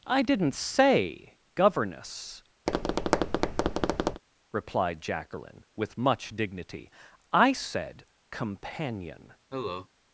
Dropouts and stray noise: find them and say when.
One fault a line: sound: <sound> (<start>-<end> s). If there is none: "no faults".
sound: tap (2.7-4.2 s)
sound: cough (9.5-9.9 s)